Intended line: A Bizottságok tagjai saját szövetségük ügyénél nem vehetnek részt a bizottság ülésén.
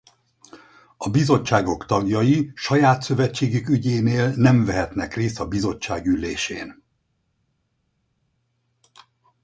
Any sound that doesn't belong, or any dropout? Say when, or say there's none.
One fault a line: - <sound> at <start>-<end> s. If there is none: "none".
none